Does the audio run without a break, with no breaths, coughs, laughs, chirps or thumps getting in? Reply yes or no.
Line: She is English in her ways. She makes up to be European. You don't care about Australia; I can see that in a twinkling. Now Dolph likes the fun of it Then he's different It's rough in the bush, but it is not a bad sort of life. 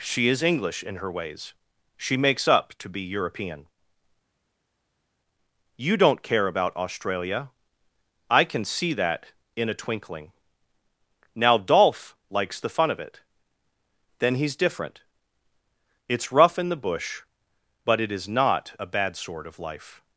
yes